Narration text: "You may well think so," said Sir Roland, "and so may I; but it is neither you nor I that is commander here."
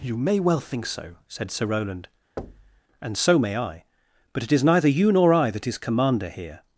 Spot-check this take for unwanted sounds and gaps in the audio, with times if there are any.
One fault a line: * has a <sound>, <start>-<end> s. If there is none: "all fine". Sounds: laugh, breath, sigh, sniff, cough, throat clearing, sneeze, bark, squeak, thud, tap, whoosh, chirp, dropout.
* has a thud, 2.4-2.8 s